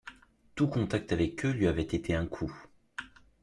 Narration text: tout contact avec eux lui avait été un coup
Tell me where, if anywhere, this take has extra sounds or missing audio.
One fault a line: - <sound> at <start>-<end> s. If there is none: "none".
none